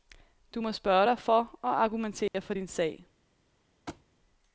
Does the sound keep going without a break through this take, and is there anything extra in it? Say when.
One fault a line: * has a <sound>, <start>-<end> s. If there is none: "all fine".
* has a dropout, 2.3-2.3 s
* has a thud, 3.9-4.1 s